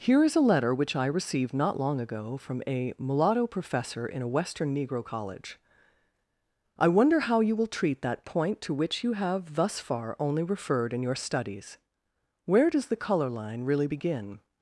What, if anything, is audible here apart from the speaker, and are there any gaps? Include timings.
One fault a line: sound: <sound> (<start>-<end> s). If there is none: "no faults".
no faults